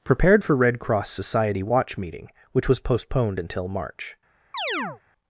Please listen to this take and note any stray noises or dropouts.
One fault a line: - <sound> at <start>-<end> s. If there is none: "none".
- chirp at 4.5-5.0 s